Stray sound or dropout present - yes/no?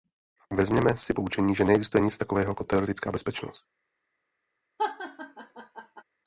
yes